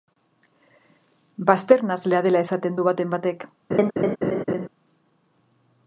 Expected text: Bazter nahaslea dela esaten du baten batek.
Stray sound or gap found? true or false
true